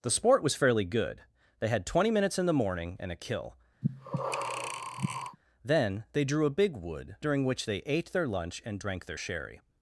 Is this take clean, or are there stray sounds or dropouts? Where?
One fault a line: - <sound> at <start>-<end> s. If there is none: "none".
- breath at 3.8-5.4 s